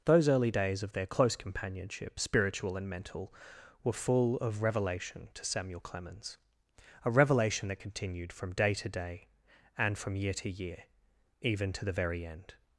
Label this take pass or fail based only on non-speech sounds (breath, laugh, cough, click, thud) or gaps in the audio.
pass